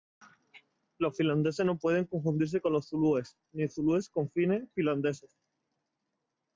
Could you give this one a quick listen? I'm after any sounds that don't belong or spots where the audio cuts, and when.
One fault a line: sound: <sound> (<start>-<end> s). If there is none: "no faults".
no faults